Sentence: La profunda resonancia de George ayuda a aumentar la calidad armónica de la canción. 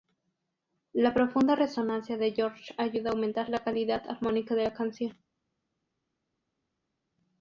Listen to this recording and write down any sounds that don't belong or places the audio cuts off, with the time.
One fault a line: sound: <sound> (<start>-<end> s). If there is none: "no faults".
no faults